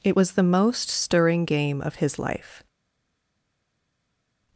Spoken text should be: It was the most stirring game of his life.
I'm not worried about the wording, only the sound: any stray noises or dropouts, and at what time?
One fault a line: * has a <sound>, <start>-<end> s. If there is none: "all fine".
all fine